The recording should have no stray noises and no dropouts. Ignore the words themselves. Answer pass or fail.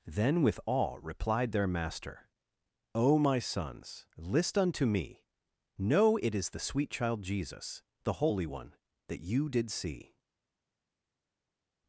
pass